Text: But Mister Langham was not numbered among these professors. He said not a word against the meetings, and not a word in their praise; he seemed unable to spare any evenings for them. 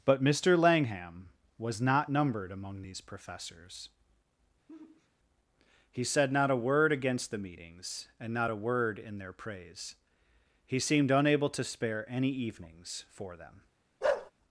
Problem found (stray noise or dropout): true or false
true